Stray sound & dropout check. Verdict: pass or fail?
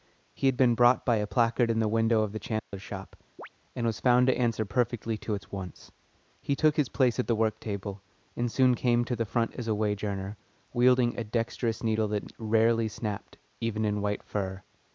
fail